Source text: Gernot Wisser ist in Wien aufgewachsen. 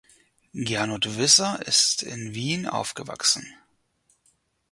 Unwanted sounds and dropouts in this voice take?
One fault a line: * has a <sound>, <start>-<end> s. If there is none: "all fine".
all fine